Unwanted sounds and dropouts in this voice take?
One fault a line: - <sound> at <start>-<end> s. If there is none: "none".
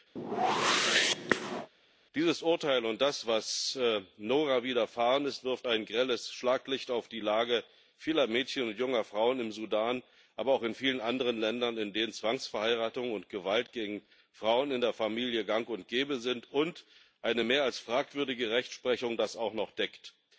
- whoosh at 0.2-1.7 s